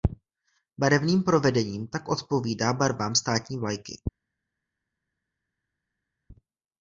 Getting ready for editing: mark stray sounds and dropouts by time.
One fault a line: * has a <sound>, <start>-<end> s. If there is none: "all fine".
all fine